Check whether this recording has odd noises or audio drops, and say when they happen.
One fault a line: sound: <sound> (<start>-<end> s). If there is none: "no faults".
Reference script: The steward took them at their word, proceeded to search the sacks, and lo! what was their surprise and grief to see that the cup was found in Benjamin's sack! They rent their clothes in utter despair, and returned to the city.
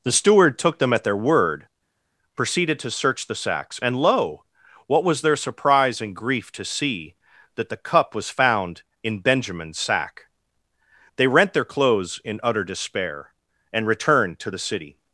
no faults